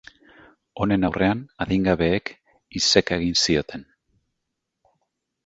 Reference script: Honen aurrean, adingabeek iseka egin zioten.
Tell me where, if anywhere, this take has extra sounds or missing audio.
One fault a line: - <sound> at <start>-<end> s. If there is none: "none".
none